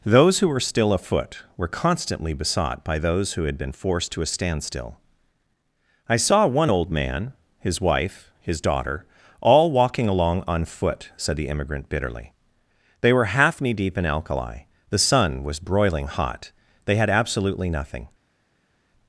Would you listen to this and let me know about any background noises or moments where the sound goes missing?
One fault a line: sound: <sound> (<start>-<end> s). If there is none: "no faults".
no faults